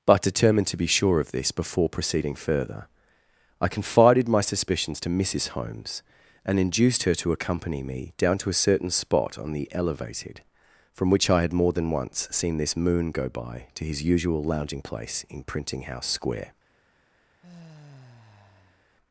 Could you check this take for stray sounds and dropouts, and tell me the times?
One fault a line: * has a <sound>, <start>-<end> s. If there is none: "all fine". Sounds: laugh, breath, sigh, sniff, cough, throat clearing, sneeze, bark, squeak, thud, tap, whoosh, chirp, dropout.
* has a sigh, 17.4-18.8 s